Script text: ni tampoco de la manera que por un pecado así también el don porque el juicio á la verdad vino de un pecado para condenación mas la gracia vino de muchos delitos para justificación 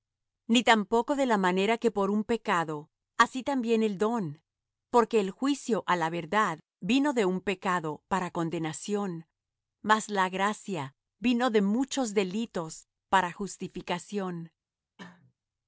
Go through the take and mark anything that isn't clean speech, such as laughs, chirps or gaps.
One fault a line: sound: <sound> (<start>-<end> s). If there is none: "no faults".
sound: cough (15.0-15.3 s)